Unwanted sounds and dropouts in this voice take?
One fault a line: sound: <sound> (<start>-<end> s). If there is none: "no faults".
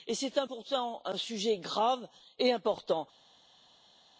no faults